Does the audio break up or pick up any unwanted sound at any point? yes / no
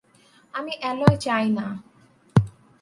no